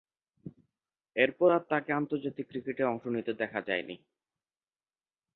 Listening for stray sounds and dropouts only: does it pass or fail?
pass